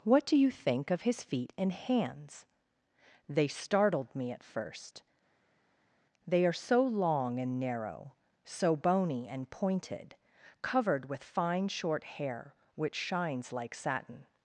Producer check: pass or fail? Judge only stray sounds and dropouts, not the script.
pass